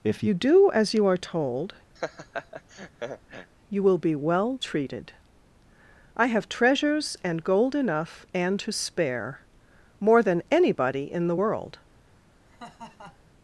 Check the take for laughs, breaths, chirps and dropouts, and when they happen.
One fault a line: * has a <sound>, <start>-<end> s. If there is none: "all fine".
* has a laugh, 2.0-3.5 s
* has a laugh, 12.5-13.3 s